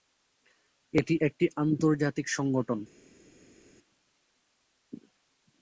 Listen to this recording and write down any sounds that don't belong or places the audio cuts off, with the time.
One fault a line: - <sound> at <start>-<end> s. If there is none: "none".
none